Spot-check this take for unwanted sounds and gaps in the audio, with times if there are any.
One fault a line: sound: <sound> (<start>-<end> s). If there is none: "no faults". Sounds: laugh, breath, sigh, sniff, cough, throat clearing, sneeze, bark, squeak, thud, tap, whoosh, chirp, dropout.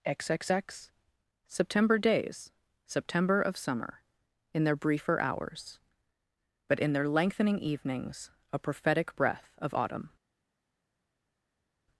no faults